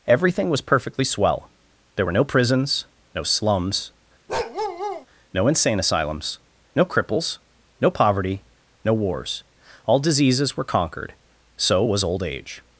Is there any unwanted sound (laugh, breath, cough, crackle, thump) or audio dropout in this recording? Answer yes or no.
yes